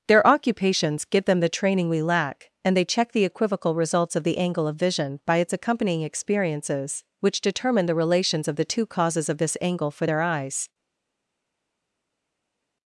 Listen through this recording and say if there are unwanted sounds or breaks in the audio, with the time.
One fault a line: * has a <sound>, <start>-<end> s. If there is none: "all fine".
all fine